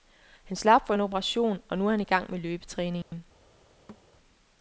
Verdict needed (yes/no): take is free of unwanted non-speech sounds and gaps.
no